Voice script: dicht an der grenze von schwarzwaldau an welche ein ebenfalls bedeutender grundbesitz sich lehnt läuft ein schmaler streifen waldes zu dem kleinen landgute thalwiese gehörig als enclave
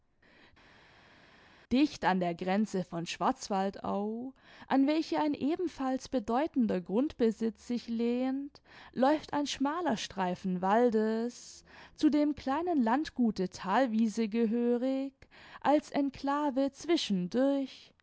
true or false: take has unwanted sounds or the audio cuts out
false